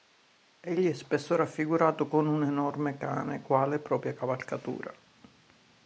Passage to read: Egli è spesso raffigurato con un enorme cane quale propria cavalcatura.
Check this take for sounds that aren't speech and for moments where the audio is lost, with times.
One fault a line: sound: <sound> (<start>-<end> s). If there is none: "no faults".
no faults